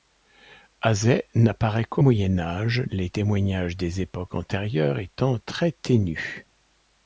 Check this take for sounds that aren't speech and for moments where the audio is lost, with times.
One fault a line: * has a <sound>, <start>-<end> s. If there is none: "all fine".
all fine